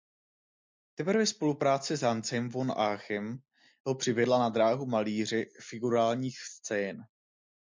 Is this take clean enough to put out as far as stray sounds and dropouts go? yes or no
yes